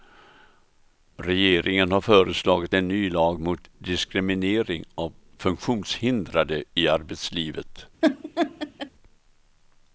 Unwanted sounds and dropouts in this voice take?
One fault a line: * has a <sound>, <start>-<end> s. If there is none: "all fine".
* has a laugh, 8.0-8.9 s